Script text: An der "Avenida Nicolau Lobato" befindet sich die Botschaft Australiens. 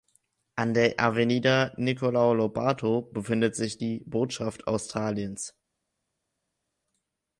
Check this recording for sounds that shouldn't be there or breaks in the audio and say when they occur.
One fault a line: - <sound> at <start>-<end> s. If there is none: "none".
none